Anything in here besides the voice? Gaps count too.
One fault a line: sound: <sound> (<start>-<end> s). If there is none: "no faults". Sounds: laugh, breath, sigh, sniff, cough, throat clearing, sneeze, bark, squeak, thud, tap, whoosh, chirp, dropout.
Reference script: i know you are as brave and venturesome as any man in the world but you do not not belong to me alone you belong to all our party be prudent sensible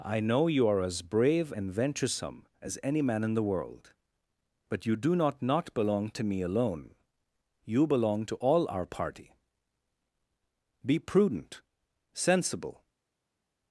no faults